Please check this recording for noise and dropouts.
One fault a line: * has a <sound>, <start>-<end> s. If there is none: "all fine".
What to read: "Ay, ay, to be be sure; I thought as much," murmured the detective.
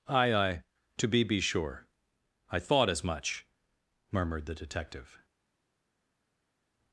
all fine